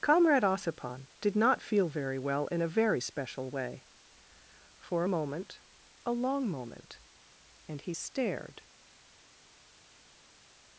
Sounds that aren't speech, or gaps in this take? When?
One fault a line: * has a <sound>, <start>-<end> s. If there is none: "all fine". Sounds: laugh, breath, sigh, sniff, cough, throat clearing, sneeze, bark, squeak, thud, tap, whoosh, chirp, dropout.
all fine